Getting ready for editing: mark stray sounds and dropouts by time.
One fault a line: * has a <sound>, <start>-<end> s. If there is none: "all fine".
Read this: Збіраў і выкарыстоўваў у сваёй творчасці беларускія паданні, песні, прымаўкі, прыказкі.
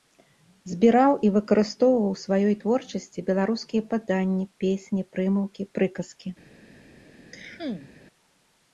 * has a cough, 7.3-7.9 s